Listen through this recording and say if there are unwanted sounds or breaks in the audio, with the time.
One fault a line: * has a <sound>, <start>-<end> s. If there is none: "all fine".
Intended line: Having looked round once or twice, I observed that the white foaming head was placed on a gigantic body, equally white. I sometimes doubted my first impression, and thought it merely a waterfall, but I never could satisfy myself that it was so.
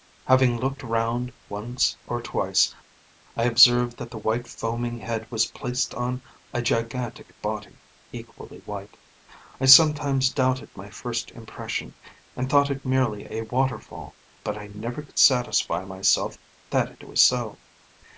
all fine